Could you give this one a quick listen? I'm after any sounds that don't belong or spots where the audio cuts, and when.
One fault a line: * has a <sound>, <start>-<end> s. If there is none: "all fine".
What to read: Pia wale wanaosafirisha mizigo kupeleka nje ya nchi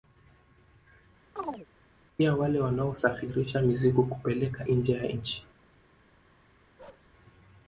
* has a chirp, 1.4-1.7 s
* has a bark, 6.8-7.1 s